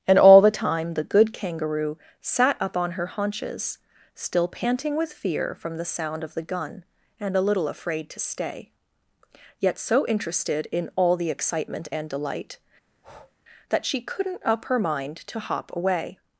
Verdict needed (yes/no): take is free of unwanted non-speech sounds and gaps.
no